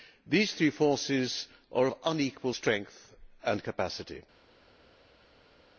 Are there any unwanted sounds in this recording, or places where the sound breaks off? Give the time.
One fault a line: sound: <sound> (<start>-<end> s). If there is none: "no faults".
no faults